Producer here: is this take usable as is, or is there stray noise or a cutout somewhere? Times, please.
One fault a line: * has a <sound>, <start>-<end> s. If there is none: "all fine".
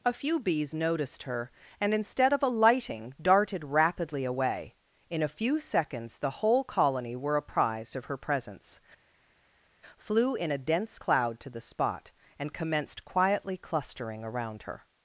all fine